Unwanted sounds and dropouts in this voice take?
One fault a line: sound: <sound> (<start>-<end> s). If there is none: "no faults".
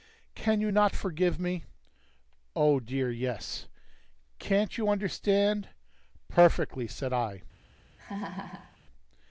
sound: laugh (8.0-8.8 s)